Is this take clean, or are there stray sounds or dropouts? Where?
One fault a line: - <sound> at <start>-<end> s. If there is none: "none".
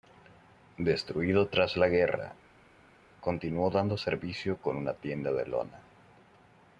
none